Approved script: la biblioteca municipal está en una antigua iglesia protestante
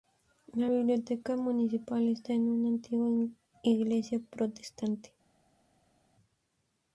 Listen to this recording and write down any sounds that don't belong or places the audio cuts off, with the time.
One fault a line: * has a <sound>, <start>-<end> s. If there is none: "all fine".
all fine